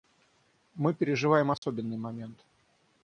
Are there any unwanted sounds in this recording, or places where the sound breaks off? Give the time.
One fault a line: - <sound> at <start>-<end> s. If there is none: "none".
- dropout at 1.6-1.6 s